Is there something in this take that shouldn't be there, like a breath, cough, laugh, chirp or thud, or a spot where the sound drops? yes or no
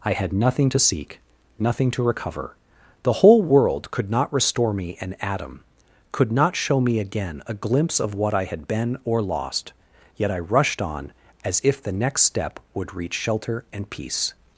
no